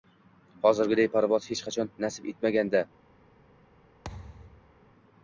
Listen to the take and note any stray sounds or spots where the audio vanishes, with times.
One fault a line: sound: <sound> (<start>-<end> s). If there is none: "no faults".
sound: thud (4.0-4.8 s)